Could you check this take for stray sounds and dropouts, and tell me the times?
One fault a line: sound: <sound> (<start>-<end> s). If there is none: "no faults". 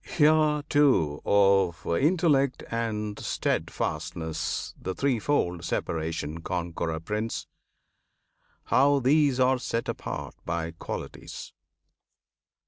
no faults